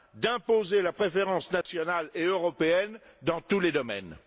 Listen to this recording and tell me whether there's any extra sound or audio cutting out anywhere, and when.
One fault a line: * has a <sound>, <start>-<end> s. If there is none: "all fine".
* has a dropout, 1.6-1.7 s